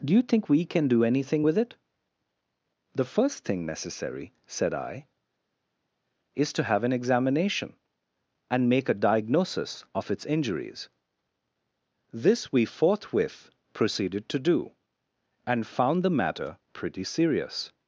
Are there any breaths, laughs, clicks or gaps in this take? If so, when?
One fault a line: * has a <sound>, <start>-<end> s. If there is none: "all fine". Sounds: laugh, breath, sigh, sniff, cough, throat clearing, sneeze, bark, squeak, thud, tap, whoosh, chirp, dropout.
all fine